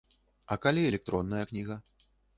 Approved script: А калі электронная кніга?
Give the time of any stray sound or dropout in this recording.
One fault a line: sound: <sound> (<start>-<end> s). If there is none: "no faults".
no faults